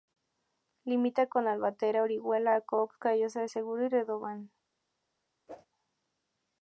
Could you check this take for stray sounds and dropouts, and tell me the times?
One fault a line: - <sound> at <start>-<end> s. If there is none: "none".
- whoosh at 5.5-5.7 s